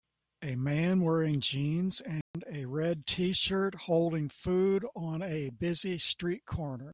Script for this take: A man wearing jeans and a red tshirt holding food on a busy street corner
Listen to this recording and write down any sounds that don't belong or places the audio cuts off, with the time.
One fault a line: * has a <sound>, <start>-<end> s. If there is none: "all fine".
* has a dropout, 2.2-2.3 s